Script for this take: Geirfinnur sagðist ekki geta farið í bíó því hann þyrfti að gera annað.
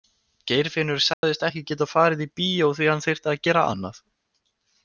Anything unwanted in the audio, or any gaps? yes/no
yes